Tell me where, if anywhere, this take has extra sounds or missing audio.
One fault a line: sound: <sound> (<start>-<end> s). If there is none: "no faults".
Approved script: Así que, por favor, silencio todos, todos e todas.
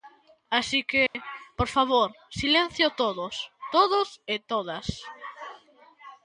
sound: dropout (1.1-1.1 s)